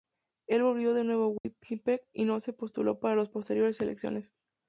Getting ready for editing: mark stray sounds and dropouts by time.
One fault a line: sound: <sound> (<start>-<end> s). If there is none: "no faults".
sound: dropout (1.4-1.4 s)